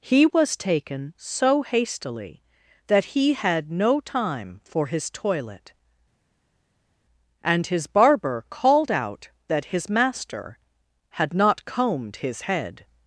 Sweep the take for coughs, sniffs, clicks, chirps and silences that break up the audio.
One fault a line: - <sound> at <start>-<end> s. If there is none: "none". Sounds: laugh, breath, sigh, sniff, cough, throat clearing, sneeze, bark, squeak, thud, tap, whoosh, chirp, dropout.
none